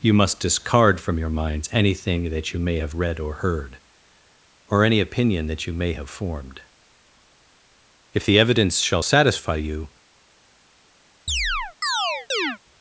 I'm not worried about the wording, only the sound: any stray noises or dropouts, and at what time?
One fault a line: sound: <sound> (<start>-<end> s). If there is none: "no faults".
sound: chirp (11.3-12.6 s)